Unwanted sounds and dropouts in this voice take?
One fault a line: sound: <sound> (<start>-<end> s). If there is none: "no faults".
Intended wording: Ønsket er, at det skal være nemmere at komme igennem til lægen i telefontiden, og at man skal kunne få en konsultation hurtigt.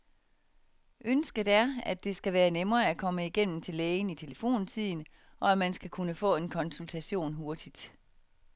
no faults